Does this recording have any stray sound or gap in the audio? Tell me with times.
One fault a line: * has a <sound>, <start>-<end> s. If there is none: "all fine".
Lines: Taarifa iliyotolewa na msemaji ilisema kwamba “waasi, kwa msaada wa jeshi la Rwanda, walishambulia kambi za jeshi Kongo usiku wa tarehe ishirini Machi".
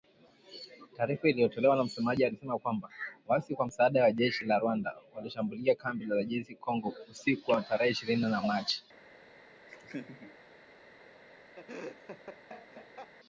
* has a laugh, 9.7-10.4 s
* has a laugh, 11.6-13.1 s